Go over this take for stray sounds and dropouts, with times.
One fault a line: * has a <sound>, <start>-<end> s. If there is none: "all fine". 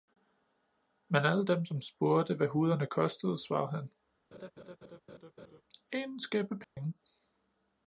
* has a laugh, 4.3-5.6 s
* has a dropout, 6.6-6.8 s